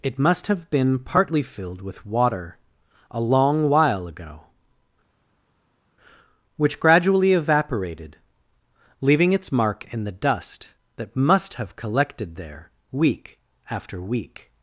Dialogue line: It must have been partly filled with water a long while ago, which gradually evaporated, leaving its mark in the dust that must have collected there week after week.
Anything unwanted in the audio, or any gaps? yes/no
no